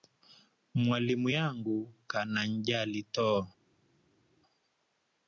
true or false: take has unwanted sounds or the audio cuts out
false